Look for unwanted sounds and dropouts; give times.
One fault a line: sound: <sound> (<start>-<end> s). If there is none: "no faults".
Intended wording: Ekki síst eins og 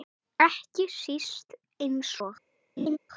sound: laugh (2.8-3.0 s)